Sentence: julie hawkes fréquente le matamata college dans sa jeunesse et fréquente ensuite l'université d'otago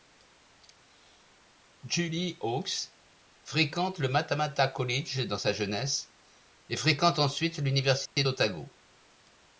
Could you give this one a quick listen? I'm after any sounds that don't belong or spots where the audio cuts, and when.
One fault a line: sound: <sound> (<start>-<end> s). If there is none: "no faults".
sound: dropout (8.1-8.2 s)